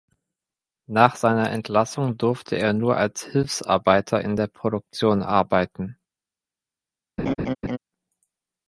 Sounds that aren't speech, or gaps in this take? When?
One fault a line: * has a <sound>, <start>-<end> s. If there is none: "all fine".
* has a laugh, 7.2-7.8 s